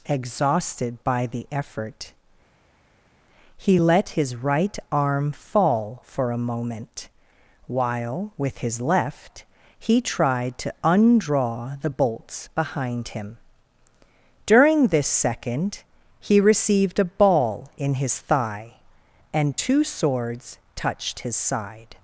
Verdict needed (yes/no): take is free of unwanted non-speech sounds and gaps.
yes